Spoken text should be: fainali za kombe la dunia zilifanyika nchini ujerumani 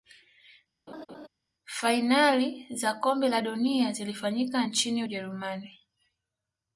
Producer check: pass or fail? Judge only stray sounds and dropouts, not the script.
fail